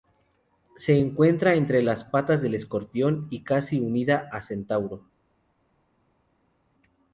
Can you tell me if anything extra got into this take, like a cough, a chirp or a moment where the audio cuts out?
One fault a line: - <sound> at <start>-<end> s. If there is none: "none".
none